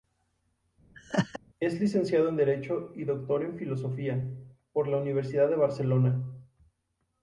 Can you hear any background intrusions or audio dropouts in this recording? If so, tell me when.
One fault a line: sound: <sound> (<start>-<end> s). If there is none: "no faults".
sound: laugh (0.9-1.4 s)